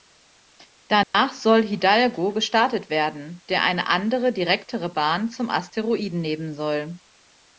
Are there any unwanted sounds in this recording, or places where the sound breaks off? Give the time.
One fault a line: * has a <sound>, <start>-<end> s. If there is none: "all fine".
* has a dropout, 1.0-1.1 s